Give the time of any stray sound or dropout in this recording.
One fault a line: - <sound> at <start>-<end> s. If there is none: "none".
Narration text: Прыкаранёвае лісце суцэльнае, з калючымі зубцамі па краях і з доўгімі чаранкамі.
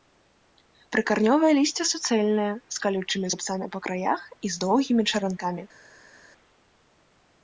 none